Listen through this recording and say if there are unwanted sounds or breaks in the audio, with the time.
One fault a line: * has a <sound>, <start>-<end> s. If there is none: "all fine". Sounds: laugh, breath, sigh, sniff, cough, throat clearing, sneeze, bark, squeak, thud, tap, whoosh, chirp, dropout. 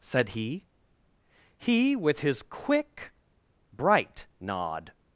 all fine